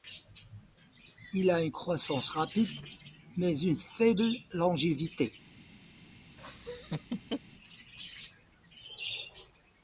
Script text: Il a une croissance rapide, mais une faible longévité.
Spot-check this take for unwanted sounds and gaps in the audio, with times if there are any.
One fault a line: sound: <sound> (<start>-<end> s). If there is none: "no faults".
sound: laugh (6.4-7.4 s)